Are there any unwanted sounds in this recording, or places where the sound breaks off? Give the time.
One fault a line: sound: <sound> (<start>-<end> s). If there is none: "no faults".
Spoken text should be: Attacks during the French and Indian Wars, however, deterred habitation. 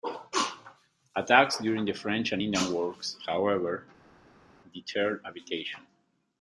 no faults